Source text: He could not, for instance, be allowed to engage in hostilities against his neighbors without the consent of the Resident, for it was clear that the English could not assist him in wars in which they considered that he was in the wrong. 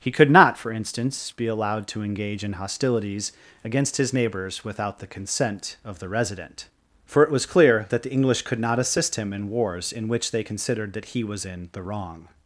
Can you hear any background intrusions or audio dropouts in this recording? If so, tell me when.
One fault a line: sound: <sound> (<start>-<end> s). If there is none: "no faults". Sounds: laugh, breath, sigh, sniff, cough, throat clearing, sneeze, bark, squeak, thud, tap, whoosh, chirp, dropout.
no faults